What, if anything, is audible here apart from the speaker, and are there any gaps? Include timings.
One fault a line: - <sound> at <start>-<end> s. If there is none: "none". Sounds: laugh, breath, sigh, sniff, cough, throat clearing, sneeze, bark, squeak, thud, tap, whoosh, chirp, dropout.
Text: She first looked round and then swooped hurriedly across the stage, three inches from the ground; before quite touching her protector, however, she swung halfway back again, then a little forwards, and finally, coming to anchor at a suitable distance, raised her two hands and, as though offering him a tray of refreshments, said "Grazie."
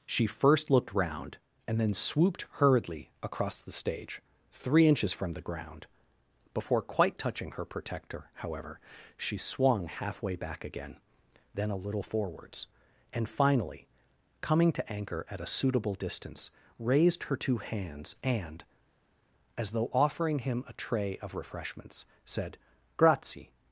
none